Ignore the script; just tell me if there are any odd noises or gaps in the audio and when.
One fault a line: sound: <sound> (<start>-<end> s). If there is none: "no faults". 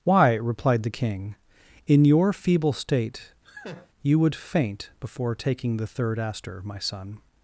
sound: laugh (3.4-3.9 s)